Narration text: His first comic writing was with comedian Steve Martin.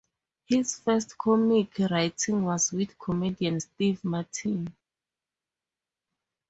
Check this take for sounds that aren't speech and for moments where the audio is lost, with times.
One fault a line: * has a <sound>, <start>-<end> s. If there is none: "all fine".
all fine